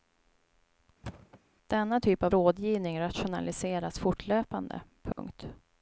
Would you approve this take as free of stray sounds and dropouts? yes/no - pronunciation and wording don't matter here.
no